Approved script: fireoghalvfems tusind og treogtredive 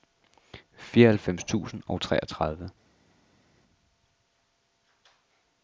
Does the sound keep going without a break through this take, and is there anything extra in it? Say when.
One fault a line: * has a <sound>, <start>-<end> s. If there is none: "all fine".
all fine